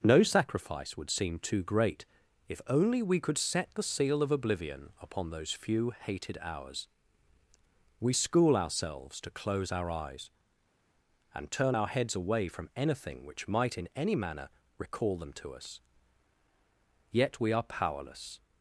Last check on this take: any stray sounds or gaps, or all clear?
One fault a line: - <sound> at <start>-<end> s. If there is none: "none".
none